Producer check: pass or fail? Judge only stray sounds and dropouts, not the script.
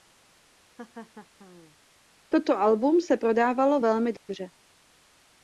fail